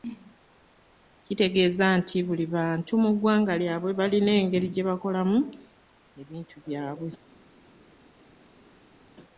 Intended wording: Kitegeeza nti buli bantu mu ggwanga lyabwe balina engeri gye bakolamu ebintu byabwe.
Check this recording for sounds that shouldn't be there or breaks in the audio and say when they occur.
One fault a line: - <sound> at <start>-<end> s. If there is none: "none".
none